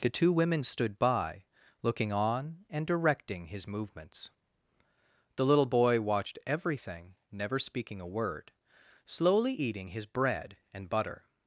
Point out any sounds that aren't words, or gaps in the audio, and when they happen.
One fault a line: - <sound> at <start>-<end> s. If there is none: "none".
none